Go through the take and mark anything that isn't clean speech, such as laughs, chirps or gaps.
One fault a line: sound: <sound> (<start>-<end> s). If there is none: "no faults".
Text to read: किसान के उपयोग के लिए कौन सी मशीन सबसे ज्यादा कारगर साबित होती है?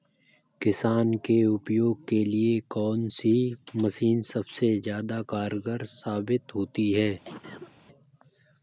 sound: cough (7.2-7.7 s)